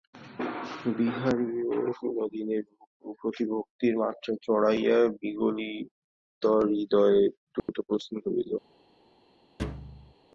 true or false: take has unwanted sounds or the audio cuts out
true